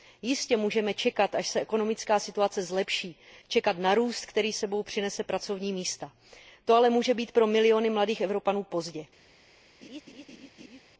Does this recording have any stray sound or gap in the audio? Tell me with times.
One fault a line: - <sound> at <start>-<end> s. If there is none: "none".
- laugh at 9.8-10.8 s